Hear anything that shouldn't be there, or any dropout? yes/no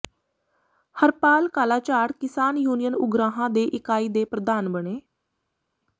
no